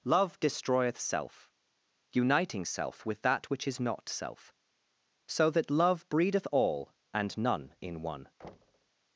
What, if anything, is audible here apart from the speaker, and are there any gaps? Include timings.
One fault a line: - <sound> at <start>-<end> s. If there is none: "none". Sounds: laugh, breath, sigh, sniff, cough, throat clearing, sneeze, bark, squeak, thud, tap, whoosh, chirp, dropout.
- thud at 8.4-8.9 s